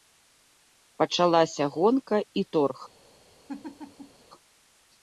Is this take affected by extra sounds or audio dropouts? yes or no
yes